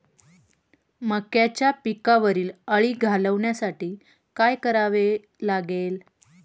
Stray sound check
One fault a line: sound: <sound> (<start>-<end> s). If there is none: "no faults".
no faults